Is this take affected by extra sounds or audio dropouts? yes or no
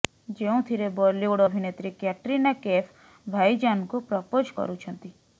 no